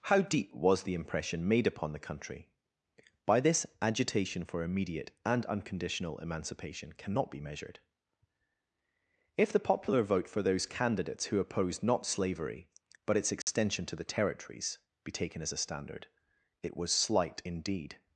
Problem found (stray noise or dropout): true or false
true